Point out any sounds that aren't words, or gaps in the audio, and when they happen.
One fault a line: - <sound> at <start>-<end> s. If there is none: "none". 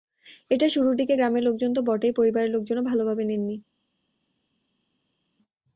none